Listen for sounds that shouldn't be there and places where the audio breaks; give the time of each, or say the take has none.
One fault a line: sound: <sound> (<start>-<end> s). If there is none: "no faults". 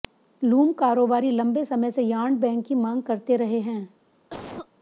sound: cough (4.3-4.7 s)